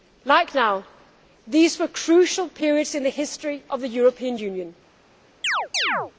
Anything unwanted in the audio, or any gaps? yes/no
yes